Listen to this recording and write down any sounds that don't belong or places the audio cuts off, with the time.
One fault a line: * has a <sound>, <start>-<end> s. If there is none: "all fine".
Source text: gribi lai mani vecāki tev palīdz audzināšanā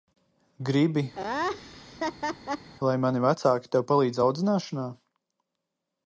* has a laugh, 1.1-2.7 s